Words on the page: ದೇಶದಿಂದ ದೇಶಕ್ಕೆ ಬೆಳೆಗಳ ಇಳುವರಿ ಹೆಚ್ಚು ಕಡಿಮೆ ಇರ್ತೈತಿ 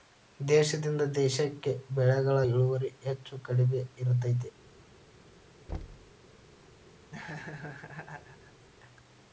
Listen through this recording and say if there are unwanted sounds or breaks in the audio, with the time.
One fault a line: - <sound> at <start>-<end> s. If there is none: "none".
- thud at 5.7-6.1 s
- laugh at 7.1-8.7 s